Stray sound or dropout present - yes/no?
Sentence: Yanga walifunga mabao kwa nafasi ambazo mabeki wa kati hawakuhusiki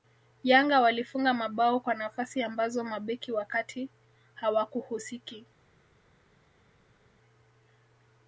no